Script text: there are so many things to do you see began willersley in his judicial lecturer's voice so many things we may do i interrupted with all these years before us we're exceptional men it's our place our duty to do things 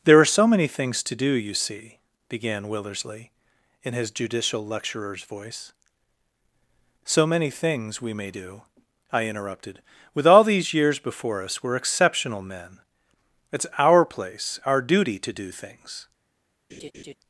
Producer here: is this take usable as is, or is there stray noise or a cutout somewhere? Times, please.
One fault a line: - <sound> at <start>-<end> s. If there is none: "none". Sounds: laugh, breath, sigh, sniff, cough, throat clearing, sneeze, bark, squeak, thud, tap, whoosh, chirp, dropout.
- laugh at 16.7-17.2 s